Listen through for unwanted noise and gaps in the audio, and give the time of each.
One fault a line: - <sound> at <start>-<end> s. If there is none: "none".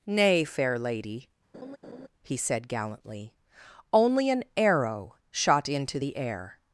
- laugh at 1.5-2.1 s